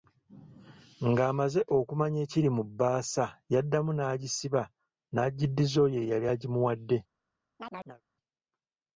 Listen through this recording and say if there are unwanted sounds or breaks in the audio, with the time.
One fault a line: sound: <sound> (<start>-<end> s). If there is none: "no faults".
sound: chirp (7.6-8.0 s)